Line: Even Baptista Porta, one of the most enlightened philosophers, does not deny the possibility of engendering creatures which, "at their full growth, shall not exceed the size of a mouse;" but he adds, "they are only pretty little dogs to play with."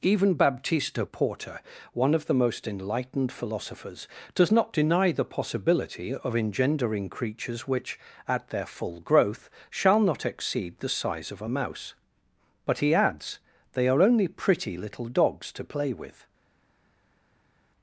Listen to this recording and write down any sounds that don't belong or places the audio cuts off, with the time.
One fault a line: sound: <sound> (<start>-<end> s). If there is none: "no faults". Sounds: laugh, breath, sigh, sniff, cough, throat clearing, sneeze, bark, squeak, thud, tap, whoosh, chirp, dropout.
no faults